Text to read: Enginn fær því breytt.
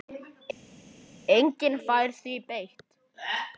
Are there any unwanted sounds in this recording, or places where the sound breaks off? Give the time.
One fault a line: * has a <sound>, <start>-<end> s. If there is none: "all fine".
all fine